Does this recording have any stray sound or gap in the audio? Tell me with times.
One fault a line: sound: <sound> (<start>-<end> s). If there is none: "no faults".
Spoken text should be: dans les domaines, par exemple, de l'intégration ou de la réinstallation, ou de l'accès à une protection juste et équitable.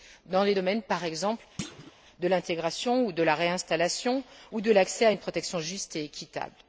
sound: thud (1.6-1.9 s)